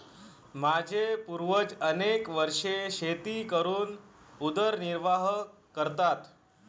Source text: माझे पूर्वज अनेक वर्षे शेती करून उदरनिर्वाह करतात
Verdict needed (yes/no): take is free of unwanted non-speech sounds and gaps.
yes